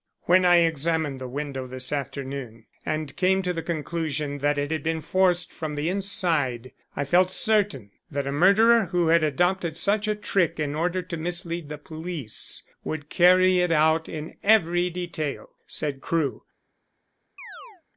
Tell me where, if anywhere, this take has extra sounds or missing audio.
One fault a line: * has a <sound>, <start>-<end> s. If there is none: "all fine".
* has a chirp, 17.4-17.8 s